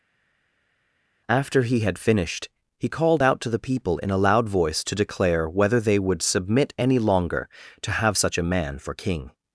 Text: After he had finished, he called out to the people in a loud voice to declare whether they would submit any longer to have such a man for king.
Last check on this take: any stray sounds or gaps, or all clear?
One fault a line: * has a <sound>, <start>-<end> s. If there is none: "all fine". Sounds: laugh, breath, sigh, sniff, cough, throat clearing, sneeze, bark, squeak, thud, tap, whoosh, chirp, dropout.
all fine